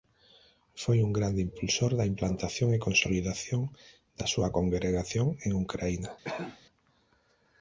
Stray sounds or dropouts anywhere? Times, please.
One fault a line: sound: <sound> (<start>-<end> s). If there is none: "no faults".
sound: cough (6.2-6.6 s)